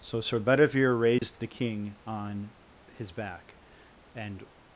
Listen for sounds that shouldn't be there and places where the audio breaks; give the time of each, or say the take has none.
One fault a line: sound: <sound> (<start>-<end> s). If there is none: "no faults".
sound: dropout (1.2-1.2 s)